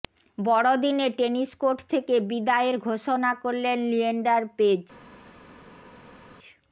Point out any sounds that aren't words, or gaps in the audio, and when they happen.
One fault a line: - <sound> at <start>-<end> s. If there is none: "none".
none